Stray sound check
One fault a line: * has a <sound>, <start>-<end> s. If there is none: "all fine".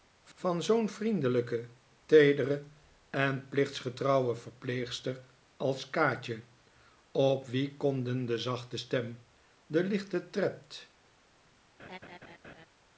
* has a laugh, 11.8-12.7 s